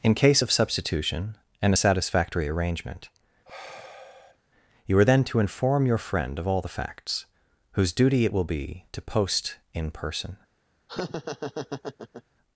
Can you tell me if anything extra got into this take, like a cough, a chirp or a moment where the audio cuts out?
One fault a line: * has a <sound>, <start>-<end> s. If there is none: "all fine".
* has a sigh, 3.4-4.4 s
* has a laugh, 10.9-12.2 s